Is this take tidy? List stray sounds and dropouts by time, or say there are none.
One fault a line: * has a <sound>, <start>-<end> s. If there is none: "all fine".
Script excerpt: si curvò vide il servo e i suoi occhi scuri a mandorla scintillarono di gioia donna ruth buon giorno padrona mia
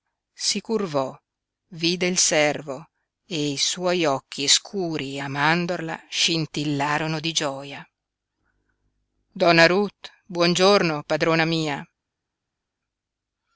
all fine